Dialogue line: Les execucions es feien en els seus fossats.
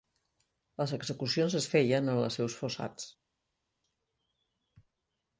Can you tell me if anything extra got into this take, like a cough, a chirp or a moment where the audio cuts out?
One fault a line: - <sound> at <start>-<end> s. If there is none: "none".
none